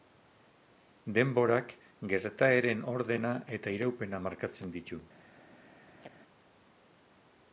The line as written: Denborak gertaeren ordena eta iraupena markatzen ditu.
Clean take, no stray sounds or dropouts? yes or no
no